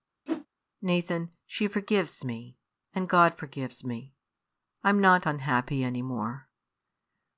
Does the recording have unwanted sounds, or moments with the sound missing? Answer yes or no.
yes